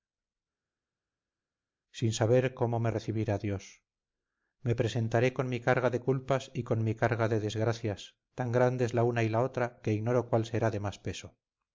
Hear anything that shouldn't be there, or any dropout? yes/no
no